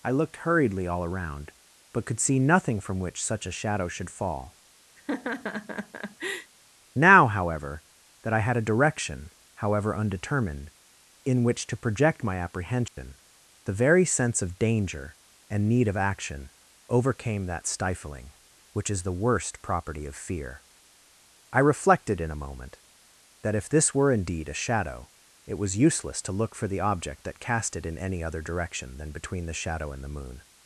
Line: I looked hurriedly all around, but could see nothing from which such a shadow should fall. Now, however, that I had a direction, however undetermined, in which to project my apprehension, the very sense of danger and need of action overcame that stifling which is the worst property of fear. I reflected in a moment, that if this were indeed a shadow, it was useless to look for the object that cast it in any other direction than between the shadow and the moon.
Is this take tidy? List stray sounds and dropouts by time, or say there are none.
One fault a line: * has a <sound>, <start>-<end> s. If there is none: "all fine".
* has a laugh, 5.0-6.5 s
* has a dropout, 12.9-13.0 s